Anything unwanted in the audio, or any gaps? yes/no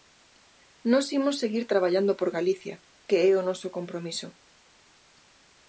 no